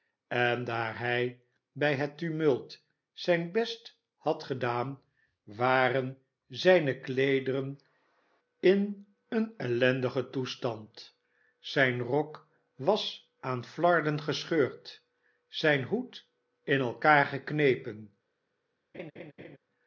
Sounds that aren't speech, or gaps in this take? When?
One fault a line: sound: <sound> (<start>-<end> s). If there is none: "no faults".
sound: laugh (18.9-19.6 s)